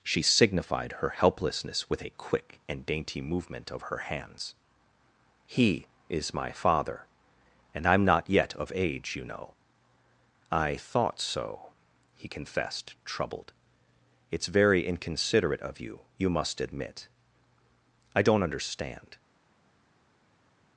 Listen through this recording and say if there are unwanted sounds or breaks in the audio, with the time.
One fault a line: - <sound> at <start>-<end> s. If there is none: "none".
none